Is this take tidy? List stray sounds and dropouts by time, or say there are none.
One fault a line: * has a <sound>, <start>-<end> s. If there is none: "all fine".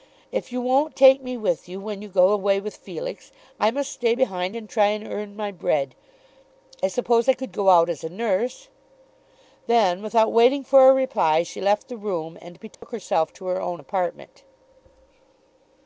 * has a dropout, 12.7-12.8 s